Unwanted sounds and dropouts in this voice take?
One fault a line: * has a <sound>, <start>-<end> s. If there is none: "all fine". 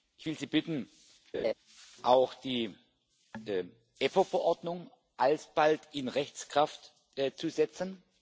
* has a laugh, 1.3-1.5 s